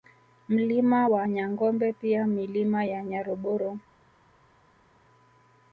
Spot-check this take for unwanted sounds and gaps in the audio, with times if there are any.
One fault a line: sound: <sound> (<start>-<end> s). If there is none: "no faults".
no faults